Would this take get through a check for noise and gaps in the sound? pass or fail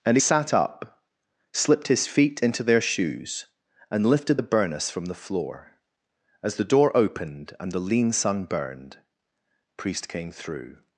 pass